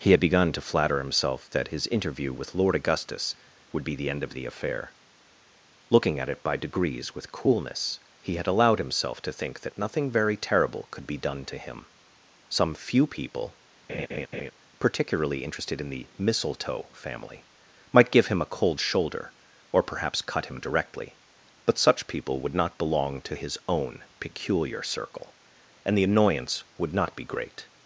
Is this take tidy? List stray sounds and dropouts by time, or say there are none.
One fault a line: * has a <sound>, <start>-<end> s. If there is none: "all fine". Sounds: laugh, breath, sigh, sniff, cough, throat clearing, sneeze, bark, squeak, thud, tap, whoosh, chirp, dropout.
* has a laugh, 13.9-14.5 s